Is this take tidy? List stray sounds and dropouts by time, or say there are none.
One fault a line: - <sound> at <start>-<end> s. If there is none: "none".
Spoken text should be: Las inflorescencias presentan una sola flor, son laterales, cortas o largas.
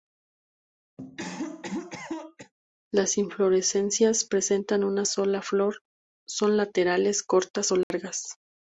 - cough at 1.0-2.5 s
- dropout at 7.8-7.9 s